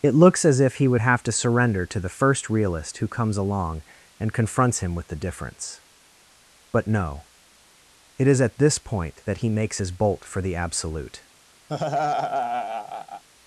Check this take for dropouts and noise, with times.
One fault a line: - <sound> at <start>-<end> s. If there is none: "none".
- laugh at 11.7-13.2 s